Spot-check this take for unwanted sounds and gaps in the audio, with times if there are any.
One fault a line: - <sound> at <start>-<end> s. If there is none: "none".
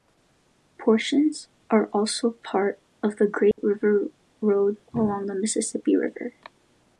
- dropout at 3.5-3.6 s